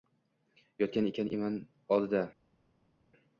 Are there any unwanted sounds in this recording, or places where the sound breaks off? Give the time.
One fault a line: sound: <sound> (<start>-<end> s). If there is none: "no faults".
no faults